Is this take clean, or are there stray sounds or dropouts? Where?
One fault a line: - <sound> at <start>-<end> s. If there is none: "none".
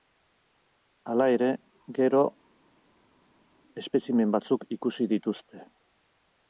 none